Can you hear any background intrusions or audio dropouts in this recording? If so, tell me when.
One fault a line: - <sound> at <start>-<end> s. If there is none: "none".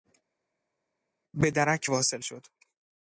none